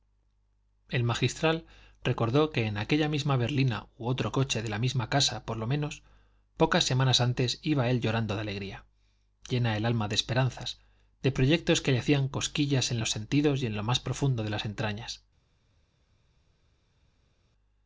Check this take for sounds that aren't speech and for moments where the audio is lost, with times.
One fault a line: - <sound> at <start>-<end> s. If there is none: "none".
none